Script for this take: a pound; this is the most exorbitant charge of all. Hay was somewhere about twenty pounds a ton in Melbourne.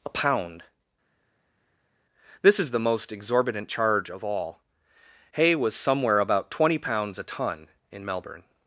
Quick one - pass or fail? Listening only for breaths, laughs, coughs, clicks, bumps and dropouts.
pass